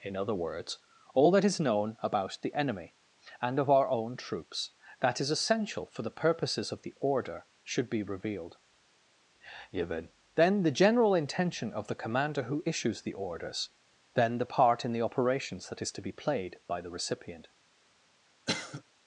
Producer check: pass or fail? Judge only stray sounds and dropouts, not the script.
fail